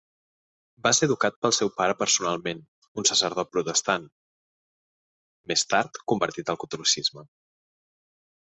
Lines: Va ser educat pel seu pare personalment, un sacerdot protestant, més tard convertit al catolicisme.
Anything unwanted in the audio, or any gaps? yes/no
no